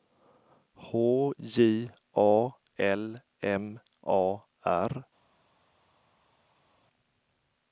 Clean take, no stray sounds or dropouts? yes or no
yes